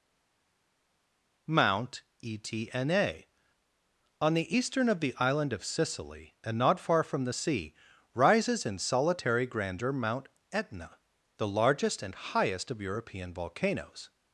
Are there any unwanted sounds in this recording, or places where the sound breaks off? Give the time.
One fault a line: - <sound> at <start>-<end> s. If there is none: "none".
none